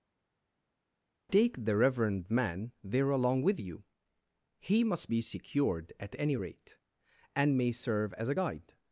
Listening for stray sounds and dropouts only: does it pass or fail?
pass